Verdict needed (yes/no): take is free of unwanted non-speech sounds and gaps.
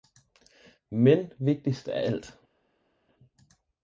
yes